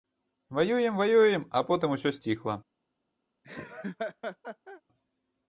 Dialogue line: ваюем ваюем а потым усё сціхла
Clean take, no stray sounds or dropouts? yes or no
no